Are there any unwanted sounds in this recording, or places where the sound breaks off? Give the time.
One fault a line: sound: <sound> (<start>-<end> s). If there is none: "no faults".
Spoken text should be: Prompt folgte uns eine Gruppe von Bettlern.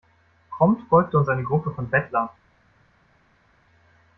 no faults